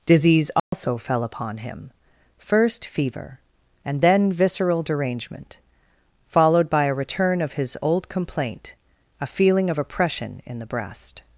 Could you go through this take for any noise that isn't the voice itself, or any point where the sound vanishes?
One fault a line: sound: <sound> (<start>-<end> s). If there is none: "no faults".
sound: dropout (0.6-0.7 s)